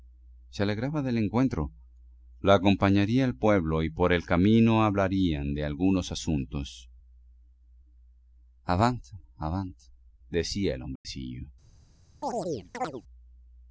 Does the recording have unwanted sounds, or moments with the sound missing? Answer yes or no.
yes